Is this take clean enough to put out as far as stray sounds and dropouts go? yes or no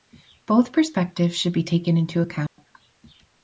no